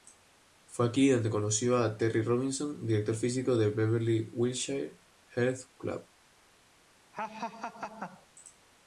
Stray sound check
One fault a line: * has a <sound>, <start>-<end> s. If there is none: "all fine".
* has a laugh, 7.1-8.3 s